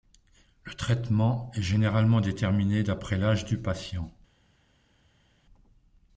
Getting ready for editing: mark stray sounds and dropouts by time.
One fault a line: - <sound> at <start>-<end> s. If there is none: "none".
none